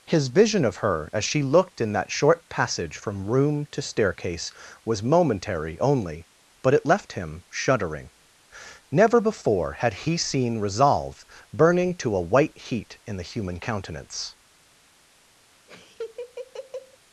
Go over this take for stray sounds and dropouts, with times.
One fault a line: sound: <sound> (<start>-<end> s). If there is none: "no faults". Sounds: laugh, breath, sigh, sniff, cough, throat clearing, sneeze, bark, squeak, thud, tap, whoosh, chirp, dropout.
sound: laugh (15.7-17.0 s)